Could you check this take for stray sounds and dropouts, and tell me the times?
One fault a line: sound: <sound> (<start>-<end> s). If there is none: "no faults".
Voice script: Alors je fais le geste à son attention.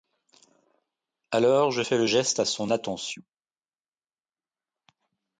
no faults